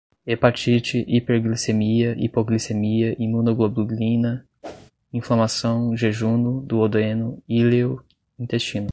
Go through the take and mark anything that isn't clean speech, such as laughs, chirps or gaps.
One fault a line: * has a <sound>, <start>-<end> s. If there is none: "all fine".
* has a whoosh, 4.6-4.9 s